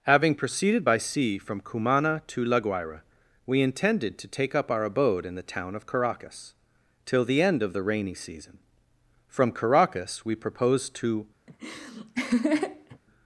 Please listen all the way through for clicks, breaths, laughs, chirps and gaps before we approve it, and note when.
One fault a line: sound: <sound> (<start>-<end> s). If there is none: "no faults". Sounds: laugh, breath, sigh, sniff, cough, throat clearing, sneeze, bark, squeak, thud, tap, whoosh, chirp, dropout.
sound: laugh (11.5-13.0 s)